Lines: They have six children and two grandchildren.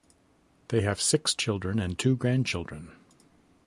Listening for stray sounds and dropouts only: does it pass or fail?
pass